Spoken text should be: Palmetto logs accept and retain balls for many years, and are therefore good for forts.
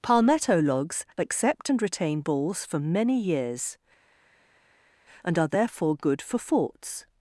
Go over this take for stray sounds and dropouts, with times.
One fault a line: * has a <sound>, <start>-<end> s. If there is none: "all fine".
all fine